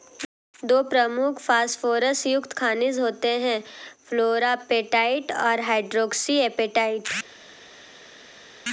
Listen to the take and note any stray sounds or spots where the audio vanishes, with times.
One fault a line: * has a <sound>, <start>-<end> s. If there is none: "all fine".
all fine